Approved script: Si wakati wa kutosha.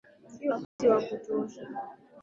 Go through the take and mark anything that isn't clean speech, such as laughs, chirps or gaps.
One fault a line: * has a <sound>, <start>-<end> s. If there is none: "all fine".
* has a dropout, 0.6-0.8 s